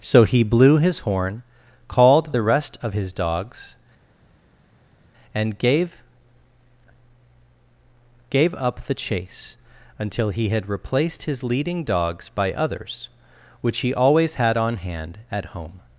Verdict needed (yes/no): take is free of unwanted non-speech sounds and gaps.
yes